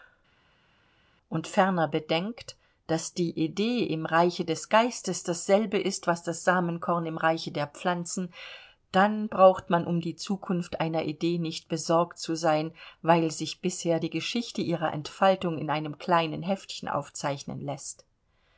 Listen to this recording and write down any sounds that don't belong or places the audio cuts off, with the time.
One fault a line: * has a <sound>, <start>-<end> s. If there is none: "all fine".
all fine